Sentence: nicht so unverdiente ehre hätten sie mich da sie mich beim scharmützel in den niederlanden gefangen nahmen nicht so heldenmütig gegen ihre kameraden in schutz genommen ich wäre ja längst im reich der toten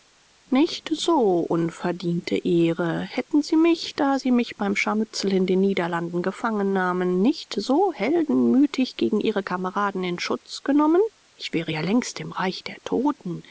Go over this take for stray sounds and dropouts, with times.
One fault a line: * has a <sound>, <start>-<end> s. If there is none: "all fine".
all fine